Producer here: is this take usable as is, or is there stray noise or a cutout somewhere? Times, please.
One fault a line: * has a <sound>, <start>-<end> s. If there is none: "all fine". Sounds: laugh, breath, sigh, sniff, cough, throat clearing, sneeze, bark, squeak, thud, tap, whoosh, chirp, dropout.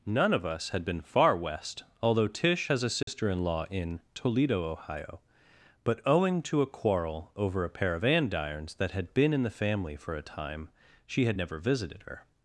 * has a dropout, 3.0-3.1 s